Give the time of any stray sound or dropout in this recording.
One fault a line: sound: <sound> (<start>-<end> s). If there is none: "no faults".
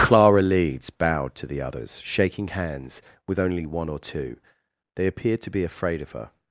no faults